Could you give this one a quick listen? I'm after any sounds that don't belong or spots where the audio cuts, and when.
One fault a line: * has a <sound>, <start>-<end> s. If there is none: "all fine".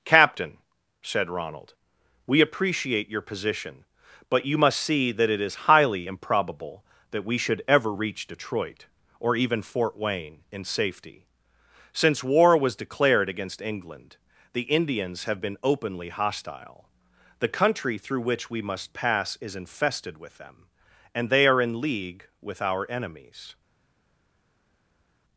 all fine